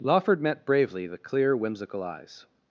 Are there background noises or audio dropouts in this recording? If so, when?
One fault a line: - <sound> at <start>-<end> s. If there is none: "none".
none